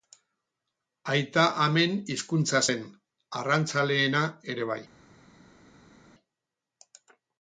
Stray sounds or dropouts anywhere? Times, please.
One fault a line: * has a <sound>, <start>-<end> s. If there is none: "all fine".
all fine